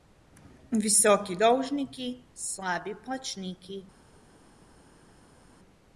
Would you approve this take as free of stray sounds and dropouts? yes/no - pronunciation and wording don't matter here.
yes